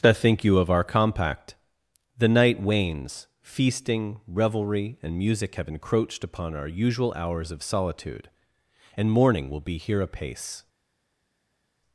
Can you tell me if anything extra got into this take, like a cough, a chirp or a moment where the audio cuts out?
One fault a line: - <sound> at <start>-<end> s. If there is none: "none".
none